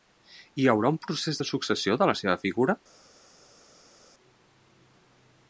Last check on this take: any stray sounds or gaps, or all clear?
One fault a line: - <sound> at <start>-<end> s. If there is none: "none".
none